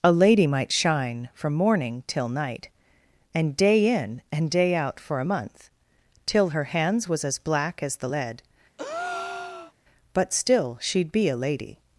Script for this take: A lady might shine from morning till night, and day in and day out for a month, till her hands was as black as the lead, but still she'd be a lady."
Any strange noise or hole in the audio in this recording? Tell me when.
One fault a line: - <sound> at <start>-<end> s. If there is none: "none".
- breath at 8.8-9.7 s